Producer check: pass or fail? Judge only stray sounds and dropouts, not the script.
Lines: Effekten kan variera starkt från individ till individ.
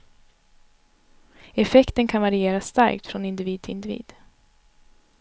pass